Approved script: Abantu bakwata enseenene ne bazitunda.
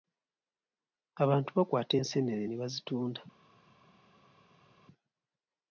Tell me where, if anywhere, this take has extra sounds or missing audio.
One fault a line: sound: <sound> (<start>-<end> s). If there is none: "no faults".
no faults